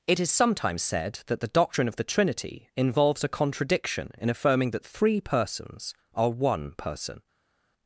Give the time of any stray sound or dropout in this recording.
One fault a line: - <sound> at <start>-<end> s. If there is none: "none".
none